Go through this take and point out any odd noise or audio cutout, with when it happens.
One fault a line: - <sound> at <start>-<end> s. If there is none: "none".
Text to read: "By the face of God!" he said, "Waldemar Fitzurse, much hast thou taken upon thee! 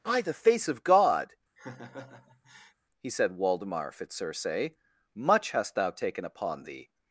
- laugh at 1.6-2.7 s